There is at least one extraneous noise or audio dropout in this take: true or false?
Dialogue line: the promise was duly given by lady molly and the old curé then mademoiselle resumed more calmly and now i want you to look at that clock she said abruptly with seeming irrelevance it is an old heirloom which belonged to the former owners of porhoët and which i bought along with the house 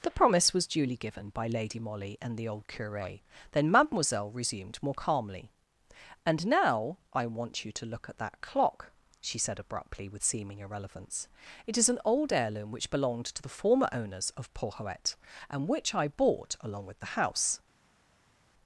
false